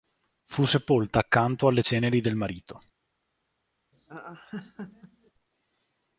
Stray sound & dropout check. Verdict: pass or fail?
fail